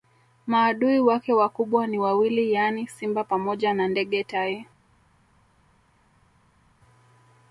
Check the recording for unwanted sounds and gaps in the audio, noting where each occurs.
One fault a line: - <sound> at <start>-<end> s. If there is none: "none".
none